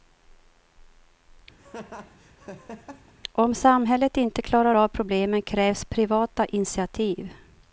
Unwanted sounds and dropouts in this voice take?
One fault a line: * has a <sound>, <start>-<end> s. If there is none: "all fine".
* has a laugh, 1.6-3.1 s